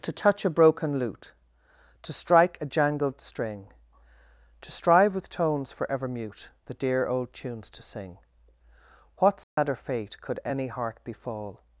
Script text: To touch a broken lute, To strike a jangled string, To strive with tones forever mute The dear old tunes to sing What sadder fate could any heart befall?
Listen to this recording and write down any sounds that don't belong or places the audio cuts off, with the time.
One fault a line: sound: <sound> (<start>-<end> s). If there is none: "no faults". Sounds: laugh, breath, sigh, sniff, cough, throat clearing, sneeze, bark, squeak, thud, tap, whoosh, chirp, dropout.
sound: dropout (9.4-9.6 s)